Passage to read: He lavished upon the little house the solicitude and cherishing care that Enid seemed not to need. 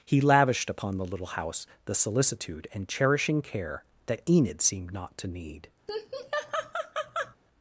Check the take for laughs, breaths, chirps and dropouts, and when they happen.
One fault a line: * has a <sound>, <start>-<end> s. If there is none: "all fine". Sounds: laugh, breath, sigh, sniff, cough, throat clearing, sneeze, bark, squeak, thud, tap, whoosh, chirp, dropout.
* has a laugh, 5.9-7.4 s